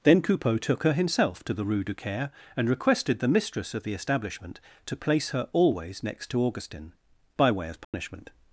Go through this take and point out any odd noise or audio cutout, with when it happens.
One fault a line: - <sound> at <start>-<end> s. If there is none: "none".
- dropout at 7.8-7.9 s